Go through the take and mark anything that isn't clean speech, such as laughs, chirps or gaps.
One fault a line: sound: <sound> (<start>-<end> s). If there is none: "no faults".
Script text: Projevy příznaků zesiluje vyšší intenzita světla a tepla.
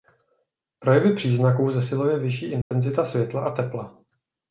sound: dropout (2.6-2.7 s)